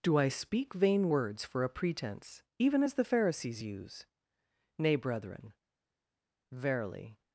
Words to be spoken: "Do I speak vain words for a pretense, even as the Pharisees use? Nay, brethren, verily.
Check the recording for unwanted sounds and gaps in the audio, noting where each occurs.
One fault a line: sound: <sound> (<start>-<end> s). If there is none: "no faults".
no faults